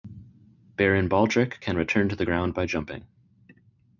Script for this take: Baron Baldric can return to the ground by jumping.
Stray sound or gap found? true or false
false